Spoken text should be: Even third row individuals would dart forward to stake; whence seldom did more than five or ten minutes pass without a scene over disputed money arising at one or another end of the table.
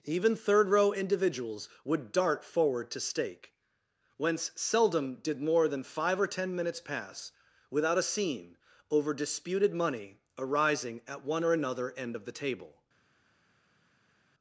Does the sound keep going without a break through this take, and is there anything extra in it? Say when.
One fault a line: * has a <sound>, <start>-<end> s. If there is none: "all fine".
all fine